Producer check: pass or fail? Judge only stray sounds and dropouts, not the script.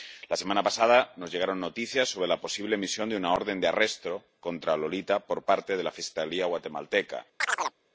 fail